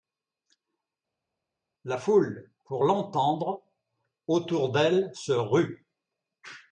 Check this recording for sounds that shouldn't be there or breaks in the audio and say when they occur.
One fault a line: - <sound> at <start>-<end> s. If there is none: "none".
none